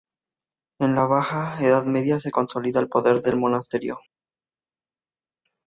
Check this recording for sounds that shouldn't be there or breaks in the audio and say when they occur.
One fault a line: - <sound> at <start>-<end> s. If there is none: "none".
none